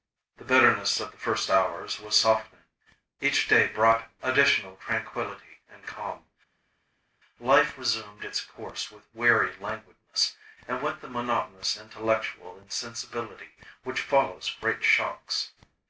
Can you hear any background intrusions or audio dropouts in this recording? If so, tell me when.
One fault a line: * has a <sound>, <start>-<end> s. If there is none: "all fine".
all fine